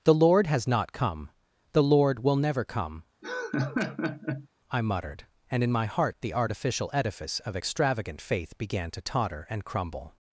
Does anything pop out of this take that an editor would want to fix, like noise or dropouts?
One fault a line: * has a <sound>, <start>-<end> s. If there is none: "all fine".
* has a laugh, 3.2-4.5 s